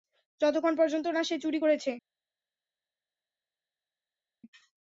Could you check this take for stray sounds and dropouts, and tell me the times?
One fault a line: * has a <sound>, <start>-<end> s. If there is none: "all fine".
all fine